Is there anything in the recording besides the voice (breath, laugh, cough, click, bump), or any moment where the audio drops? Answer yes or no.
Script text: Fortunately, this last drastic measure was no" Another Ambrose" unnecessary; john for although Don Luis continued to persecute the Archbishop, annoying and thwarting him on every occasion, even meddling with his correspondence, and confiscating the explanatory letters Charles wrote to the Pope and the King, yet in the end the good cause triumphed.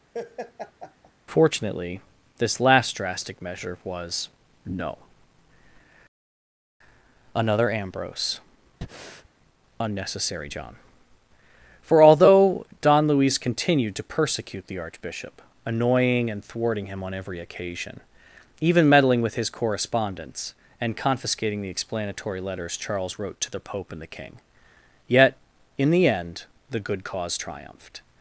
yes